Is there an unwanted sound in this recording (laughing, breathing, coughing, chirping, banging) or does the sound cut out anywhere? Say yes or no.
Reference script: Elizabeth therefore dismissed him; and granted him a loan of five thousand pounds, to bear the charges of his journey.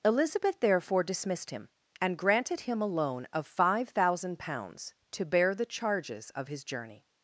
no